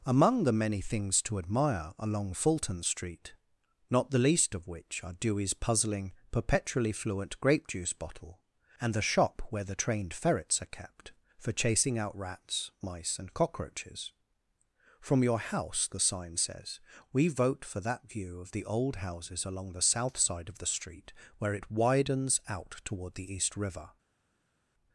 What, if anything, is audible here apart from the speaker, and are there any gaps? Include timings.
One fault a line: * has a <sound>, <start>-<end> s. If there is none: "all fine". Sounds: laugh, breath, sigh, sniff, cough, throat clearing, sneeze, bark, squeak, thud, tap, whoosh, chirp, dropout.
all fine